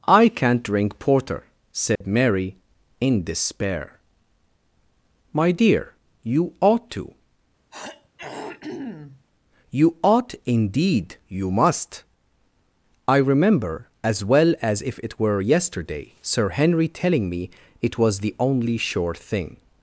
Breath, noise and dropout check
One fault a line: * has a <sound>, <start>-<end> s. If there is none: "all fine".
* has a dropout, 2.0-2.0 s
* has a throat clearing, 7.7-9.3 s